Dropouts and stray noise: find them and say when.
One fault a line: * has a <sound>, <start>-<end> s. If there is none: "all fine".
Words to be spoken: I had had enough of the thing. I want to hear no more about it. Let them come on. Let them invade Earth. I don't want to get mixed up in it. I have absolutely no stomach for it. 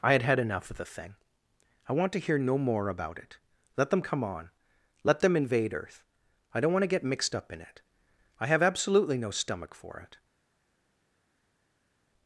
all fine